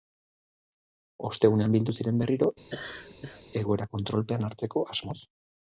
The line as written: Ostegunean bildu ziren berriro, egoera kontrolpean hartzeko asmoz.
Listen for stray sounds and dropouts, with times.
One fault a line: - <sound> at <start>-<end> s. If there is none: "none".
- laugh at 2.7-3.4 s